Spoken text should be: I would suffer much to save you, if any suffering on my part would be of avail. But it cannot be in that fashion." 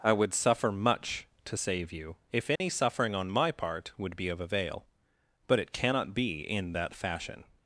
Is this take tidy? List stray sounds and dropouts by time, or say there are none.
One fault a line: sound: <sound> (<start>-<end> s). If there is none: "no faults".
sound: dropout (2.6-2.6 s)